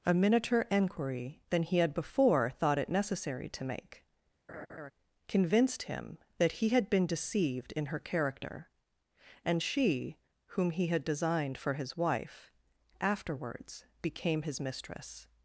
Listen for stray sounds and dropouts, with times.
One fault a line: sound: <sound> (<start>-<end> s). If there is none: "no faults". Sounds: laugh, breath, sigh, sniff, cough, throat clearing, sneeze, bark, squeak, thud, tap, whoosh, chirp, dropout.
sound: laugh (4.5-4.9 s)